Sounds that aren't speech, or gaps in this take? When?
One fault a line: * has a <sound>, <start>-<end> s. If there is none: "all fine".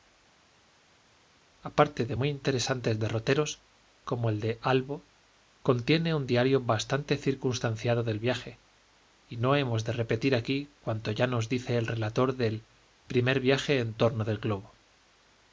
all fine